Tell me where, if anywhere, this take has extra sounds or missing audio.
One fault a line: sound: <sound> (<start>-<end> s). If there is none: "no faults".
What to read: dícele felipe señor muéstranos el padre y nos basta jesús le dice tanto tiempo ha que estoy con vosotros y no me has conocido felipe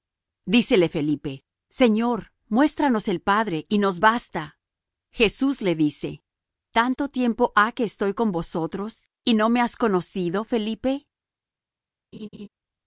sound: laugh (12.1-12.5 s)